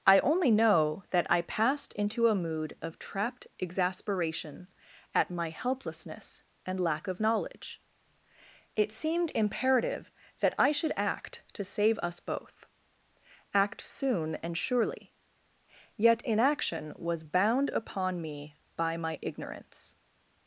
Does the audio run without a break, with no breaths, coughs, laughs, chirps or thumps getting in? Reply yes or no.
yes